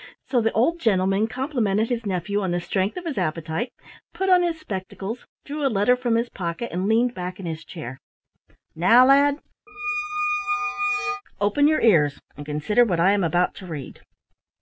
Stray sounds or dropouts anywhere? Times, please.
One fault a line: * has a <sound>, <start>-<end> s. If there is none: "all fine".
* has a squeak, 9.7-11.2 s